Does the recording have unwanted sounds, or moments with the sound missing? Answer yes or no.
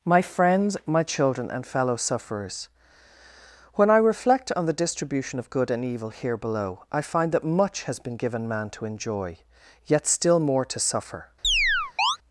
yes